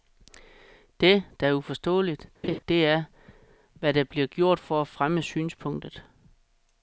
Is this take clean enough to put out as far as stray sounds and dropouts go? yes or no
no